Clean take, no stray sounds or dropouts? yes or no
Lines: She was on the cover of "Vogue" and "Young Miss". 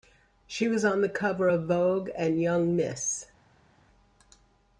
yes